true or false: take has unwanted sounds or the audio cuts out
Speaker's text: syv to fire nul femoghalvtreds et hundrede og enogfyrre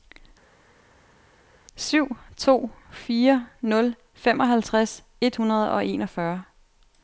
false